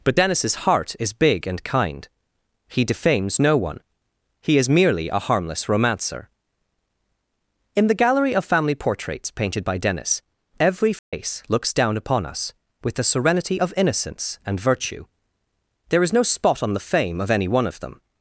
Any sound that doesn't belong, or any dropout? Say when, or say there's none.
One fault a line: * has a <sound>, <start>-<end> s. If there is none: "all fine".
* has a dropout, 11.0-11.1 s